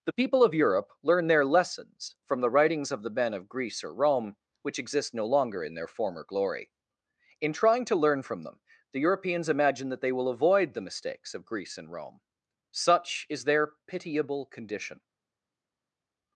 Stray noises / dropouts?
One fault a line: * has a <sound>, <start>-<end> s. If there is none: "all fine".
all fine